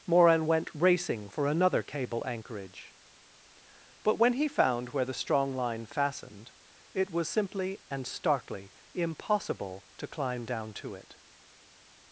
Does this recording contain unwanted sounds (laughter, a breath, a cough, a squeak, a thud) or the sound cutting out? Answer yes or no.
no